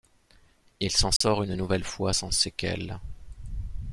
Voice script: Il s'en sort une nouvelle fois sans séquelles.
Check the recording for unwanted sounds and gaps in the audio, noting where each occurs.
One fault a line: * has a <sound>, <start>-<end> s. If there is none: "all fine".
* has a dropout, 1.2-1.2 s